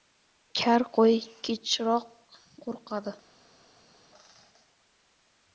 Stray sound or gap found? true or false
false